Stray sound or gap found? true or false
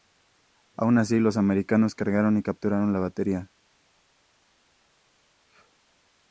false